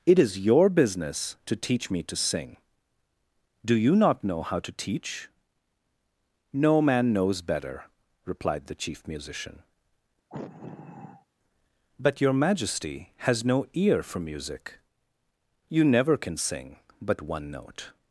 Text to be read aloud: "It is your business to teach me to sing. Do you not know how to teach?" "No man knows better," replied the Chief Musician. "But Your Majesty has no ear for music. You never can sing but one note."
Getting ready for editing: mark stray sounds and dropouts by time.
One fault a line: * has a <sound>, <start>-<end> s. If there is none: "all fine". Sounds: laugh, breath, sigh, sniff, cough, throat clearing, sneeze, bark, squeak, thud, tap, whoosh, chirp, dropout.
* has a sigh, 10.3-11.3 s